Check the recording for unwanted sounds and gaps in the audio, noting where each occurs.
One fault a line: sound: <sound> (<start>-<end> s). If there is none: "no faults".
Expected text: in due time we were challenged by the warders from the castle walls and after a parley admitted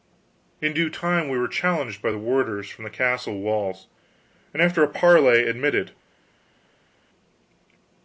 no faults